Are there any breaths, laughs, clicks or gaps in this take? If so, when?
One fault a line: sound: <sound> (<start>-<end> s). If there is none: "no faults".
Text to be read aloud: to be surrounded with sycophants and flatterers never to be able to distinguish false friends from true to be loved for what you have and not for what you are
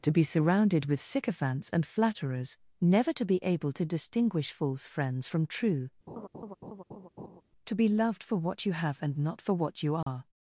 sound: laugh (6.1-7.4 s)
sound: dropout (10.0-10.1 s)